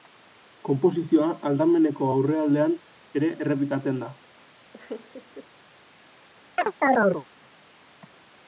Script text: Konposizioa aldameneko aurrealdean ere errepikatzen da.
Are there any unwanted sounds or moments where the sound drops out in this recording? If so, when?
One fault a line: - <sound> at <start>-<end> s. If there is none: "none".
- laugh at 4.7-5.5 s
- chirp at 6.6-7.3 s